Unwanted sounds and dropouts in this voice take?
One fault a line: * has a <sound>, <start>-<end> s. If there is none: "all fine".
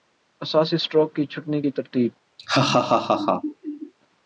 * has a laugh, 2.4-3.9 s